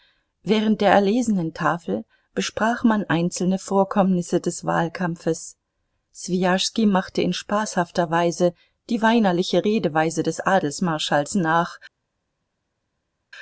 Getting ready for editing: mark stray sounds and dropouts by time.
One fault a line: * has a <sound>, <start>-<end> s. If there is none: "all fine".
all fine